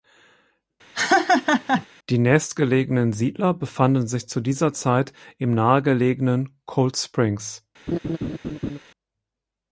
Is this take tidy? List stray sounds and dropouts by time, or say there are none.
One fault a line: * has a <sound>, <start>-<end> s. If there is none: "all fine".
* has a laugh, 0.9-1.9 s
* has a laugh, 7.9-8.8 s